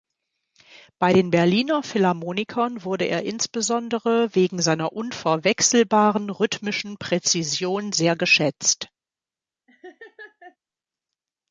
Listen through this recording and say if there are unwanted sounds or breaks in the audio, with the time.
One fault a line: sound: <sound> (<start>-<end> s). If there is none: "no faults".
sound: laugh (9.7-10.6 s)